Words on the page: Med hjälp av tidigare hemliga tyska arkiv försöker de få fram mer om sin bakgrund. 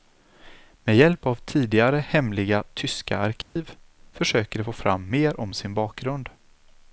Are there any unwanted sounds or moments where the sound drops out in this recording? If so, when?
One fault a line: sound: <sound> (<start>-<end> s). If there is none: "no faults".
sound: dropout (3.4-3.6 s)